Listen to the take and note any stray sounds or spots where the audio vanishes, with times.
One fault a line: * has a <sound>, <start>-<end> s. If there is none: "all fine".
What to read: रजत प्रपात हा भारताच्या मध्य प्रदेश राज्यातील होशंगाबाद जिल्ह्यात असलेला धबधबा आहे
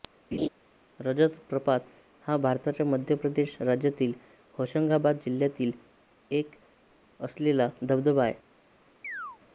* has a laugh, 0.3-0.5 s
* has a chirp, 9.0-9.4 s